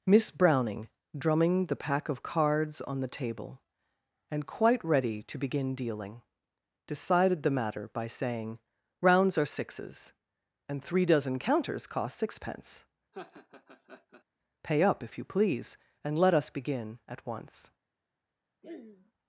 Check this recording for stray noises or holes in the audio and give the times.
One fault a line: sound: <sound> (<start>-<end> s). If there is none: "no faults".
sound: laugh (13.1-14.2 s)
sound: throat clearing (18.6-19.1 s)